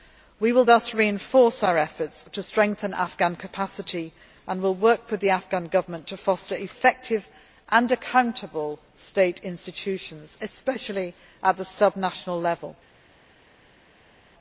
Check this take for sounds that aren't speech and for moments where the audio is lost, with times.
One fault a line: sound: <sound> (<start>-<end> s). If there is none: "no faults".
no faults